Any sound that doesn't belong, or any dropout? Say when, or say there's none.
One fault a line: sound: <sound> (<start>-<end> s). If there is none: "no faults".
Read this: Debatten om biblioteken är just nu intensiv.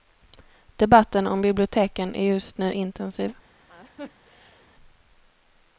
sound: laugh (3.7-4.7 s)